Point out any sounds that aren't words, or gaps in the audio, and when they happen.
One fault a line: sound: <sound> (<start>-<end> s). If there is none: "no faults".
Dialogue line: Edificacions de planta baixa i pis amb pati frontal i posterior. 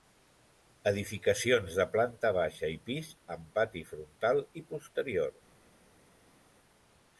no faults